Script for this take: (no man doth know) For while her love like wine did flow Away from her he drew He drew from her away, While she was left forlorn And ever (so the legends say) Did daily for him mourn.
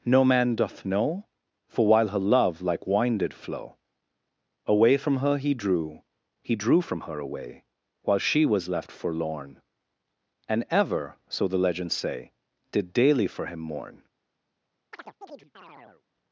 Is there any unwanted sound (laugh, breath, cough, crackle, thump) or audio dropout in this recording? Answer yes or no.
yes